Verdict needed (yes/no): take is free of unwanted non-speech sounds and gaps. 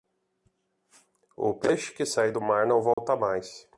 no